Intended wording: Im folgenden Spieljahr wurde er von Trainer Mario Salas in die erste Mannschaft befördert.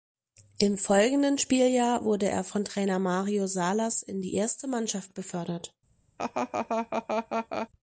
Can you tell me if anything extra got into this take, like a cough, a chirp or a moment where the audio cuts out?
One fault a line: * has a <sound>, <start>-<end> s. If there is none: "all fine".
* has a laugh, 6.2-7.7 s